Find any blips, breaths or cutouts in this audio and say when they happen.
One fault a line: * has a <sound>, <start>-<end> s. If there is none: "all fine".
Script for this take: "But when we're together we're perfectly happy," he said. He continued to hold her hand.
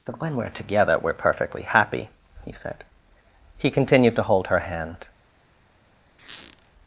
* has a squeak, 6.2-6.7 s